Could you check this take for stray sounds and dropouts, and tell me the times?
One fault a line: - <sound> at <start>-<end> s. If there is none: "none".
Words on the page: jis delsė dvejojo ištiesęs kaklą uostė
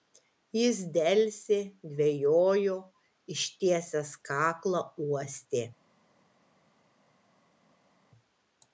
none